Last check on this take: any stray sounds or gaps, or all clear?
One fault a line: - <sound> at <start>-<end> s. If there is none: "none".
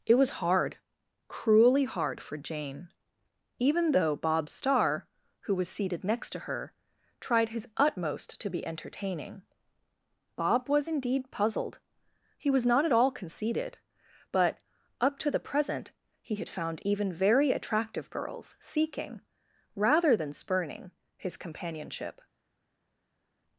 none